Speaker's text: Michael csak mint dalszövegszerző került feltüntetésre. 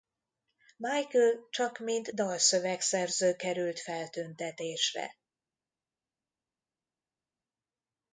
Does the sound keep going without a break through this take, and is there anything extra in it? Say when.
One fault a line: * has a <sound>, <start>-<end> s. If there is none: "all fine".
all fine